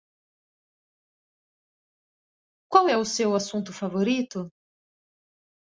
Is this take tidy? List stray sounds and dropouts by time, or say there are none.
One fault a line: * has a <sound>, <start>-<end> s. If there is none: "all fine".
all fine